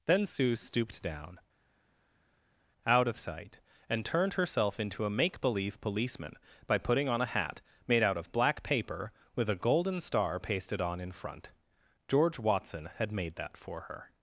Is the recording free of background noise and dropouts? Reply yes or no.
yes